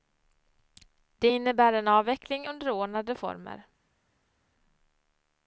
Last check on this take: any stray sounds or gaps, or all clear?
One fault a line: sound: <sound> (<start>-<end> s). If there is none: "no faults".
no faults